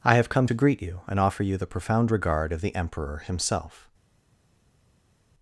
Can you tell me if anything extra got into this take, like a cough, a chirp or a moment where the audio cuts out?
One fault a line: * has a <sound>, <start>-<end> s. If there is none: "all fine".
all fine